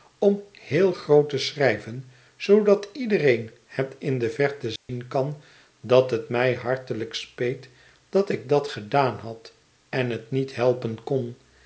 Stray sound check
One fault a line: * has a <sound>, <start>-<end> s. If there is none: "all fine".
* has a dropout, 4.8-4.9 s